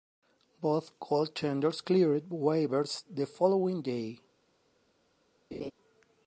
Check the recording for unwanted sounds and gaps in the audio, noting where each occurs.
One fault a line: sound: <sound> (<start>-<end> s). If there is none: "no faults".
sound: laugh (5.5-5.7 s)